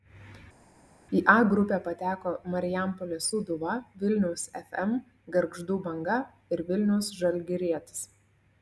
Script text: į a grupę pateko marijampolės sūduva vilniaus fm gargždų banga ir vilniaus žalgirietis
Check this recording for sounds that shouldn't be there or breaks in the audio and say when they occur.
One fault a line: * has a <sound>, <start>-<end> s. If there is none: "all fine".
all fine